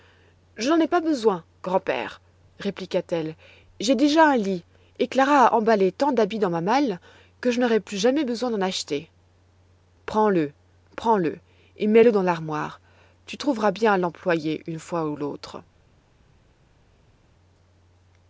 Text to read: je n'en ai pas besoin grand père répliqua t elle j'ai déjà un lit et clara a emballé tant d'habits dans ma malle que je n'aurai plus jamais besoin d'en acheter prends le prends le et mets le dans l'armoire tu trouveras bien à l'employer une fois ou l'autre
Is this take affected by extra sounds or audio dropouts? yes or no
no